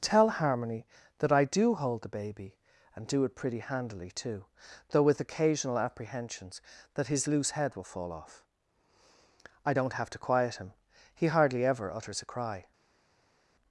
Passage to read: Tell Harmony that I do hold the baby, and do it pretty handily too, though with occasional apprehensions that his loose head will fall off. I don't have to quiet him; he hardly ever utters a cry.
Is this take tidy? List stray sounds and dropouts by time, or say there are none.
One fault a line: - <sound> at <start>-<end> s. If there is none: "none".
none